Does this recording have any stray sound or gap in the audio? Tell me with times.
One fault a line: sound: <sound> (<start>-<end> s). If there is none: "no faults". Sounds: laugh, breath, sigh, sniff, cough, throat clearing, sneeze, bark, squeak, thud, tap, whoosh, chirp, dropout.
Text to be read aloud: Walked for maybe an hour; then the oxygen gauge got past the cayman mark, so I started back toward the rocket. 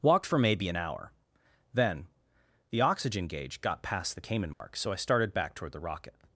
sound: dropout (4.5-4.6 s)